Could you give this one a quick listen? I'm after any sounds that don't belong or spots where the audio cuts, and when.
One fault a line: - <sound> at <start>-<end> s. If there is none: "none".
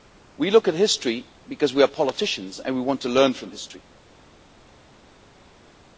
none